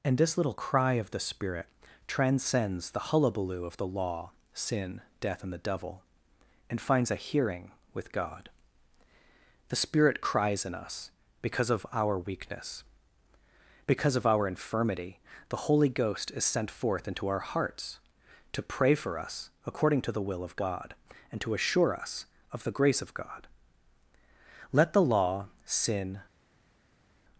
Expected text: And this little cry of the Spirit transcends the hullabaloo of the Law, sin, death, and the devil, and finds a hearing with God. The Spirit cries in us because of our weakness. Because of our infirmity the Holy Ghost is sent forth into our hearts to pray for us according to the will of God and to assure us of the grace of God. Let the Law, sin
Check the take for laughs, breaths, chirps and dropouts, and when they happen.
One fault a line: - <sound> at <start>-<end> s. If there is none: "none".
none